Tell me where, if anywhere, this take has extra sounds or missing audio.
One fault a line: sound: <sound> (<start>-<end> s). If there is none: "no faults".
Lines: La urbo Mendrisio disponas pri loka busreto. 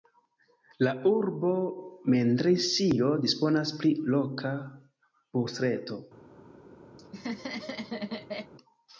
sound: laugh (7.0-8.5 s)